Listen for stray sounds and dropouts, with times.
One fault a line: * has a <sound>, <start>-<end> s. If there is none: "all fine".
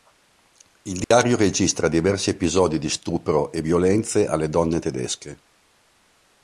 * has a dropout, 1.0-1.1 s